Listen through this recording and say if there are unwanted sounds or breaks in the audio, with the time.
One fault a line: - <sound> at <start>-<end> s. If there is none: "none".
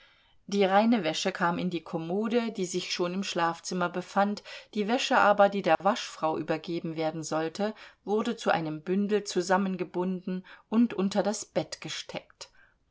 - dropout at 5.7-5.8 s